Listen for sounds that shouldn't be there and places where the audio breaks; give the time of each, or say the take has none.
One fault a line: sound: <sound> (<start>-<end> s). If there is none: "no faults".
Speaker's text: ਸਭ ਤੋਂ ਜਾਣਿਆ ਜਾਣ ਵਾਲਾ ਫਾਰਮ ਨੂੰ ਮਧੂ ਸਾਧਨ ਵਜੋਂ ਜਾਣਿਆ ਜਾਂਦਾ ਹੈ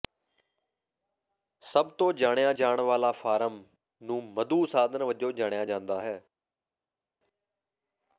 no faults